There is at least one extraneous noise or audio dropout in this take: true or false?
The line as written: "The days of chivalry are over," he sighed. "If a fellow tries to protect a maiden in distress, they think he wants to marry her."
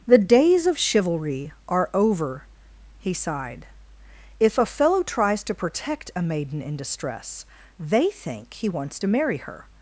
false